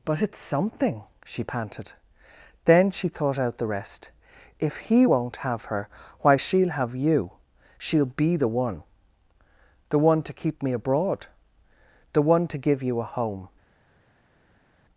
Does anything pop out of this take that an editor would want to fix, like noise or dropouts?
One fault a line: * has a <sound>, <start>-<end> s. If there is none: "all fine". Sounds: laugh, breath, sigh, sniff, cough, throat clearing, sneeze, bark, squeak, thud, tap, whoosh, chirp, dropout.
all fine